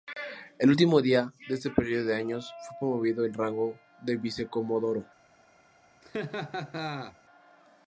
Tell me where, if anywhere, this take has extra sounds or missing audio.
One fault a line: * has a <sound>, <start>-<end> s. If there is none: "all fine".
* has a laugh, 6.0-7.2 s